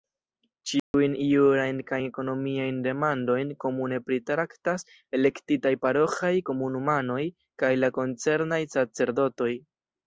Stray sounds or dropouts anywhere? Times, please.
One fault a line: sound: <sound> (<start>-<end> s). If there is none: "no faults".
sound: dropout (0.8-0.9 s)